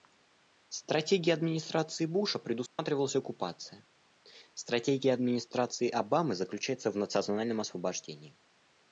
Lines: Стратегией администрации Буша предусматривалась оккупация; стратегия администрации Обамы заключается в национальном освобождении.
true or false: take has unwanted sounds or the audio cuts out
true